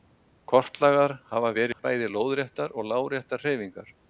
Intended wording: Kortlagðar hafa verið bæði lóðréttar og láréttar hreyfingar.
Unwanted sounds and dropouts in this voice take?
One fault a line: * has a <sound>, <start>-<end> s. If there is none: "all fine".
* has a dropout, 1.7-1.8 s